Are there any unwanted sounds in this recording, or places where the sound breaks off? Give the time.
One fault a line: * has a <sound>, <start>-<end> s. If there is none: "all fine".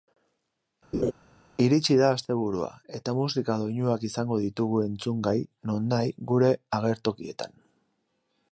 * has a laugh, 0.9-1.1 s